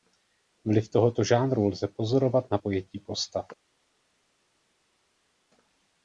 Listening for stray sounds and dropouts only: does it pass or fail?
pass